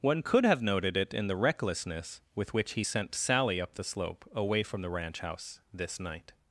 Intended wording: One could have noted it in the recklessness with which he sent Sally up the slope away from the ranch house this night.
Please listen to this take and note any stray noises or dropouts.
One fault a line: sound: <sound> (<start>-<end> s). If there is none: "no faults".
no faults